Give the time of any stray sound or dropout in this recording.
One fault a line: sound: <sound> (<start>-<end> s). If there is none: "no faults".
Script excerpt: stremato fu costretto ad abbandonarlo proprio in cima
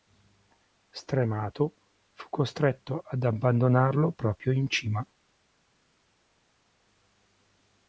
no faults